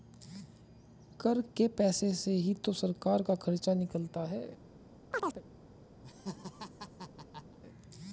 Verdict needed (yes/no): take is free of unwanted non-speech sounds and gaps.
no